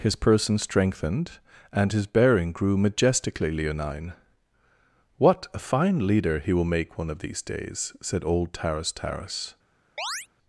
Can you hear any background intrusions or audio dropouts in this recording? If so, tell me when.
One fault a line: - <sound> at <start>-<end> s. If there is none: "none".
- chirp at 10.0-10.3 s